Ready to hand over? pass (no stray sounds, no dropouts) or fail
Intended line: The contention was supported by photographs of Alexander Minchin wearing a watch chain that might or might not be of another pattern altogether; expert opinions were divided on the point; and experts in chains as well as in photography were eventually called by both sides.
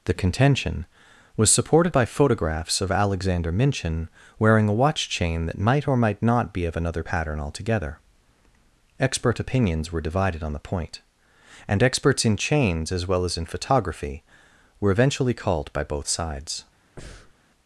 fail